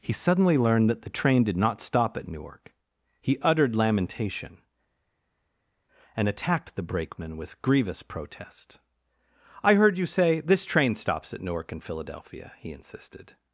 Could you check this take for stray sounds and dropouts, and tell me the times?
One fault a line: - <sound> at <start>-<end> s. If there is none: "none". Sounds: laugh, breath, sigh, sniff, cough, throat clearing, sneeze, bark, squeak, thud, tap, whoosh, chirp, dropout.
none